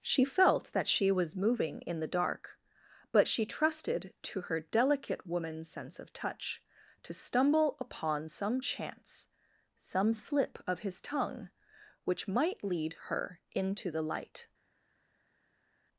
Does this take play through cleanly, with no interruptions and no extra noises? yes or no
yes